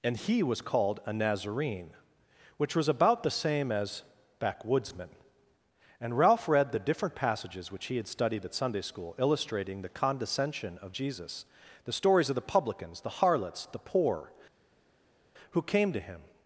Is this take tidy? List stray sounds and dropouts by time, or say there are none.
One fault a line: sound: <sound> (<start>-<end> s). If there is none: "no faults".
no faults